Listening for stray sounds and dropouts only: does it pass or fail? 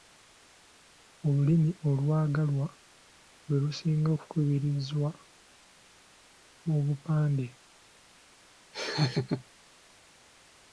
fail